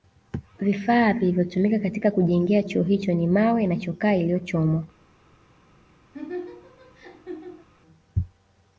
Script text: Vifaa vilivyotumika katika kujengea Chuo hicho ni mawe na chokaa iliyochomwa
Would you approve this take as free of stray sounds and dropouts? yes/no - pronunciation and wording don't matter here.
no